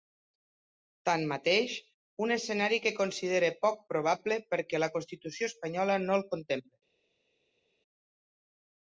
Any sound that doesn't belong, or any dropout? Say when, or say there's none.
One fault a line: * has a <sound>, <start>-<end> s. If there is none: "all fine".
all fine